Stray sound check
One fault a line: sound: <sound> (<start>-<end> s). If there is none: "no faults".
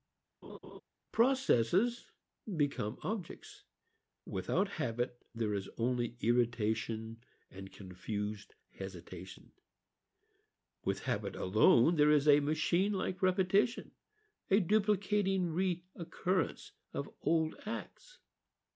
sound: laugh (0.4-0.8 s)